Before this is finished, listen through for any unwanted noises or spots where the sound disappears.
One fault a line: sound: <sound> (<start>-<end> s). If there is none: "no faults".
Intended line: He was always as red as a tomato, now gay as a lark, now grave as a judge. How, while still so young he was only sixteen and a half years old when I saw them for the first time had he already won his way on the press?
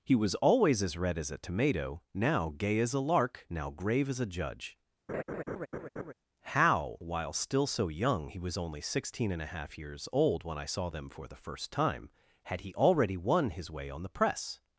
sound: laugh (5.1-6.1 s)